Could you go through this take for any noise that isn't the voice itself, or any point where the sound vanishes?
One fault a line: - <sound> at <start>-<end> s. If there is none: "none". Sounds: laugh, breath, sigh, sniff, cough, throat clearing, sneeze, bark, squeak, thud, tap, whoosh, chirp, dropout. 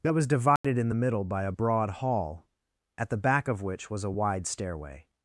- dropout at 0.6-0.6 s